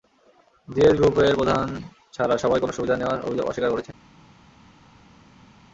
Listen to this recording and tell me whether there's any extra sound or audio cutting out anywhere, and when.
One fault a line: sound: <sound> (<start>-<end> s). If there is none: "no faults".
no faults